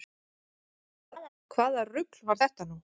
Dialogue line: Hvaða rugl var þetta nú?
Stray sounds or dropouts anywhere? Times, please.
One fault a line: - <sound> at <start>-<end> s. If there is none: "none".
- laugh at 1.1-1.3 s